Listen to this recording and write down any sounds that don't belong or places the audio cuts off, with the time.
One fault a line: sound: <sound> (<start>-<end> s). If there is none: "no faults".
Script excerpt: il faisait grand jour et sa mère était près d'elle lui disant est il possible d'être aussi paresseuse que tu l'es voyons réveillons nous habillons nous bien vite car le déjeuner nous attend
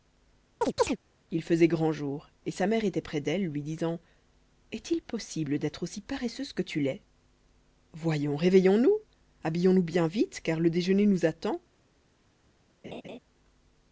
sound: chirp (0.6-1.0 s)
sound: laugh (12.8-13.2 s)